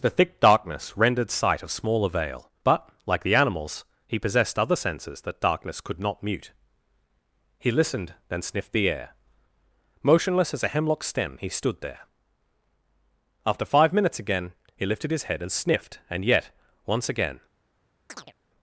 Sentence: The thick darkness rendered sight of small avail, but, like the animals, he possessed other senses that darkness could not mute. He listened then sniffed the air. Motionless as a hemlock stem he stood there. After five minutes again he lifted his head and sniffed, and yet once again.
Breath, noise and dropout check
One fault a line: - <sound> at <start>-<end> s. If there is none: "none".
- chirp at 18.1-18.3 s